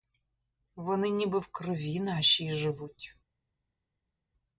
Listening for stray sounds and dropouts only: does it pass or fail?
pass